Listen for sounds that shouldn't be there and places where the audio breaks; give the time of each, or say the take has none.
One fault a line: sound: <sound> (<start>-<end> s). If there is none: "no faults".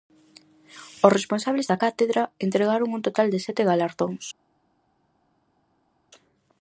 no faults